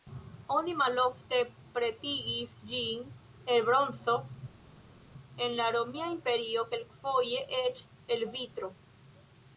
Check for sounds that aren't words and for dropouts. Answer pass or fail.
pass